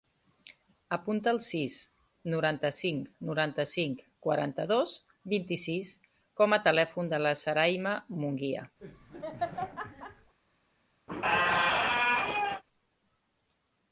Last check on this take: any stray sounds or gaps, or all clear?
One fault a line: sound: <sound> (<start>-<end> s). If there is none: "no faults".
sound: laugh (8.8-10.3 s)
sound: squeak (11.1-12.6 s)